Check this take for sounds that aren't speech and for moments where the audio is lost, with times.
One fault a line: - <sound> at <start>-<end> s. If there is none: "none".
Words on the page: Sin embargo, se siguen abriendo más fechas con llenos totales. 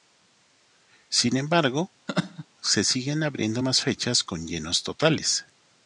- laugh at 2.1-2.5 s